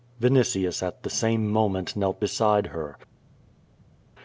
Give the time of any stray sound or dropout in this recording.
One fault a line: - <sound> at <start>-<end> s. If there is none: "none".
none